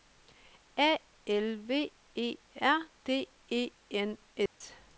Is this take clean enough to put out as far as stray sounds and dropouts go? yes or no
no